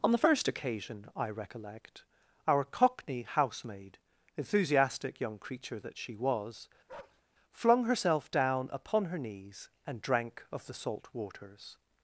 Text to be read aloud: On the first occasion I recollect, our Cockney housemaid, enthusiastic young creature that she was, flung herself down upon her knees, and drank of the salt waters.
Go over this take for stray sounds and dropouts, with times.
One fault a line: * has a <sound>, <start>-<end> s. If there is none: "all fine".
* has a bark, 6.9-7.2 s